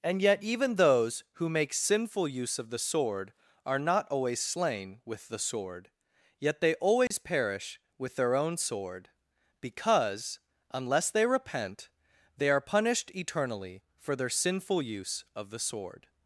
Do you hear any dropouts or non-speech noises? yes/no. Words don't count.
yes